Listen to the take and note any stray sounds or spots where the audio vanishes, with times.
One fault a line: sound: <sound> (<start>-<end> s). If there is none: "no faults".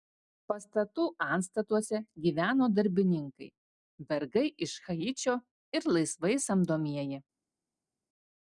no faults